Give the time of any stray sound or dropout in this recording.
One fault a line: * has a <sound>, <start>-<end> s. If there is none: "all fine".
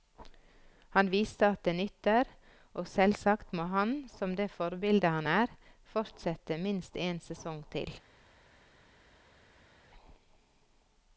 all fine